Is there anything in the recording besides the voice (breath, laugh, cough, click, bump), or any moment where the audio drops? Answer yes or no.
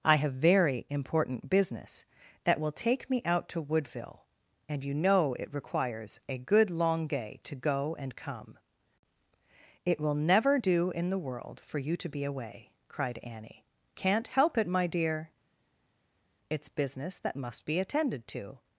no